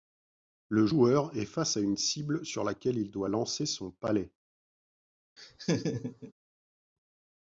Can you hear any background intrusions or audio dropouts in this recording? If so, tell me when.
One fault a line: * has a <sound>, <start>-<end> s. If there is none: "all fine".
* has a laugh, 5.4-6.3 s